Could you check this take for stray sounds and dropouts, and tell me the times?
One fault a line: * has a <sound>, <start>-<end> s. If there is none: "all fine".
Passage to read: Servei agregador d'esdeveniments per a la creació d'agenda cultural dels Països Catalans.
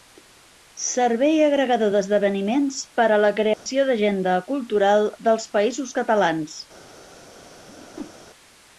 * has a dropout, 3.5-3.7 s
* has a whoosh, 7.7-8.2 s